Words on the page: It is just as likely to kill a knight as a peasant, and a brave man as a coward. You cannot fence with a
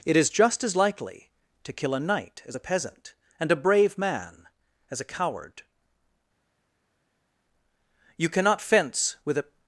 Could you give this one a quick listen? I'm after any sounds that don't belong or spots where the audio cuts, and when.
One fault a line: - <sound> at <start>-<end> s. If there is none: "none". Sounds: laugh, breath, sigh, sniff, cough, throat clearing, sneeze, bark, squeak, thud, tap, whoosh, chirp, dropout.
none